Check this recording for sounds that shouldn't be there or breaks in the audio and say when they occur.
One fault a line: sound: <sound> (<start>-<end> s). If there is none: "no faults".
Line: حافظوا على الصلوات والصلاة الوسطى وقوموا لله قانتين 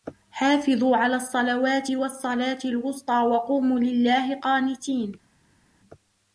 no faults